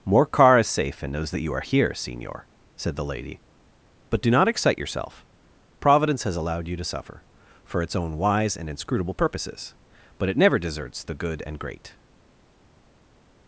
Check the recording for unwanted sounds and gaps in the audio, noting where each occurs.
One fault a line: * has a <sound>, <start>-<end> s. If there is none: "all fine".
all fine